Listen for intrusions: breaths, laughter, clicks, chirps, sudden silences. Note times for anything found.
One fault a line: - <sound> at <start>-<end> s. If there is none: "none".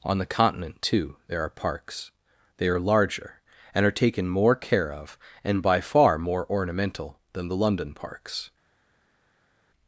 none